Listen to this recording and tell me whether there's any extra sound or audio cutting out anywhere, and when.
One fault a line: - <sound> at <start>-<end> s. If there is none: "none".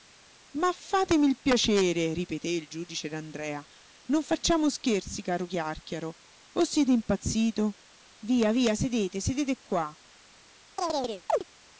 - chirp at 10.8-11.4 s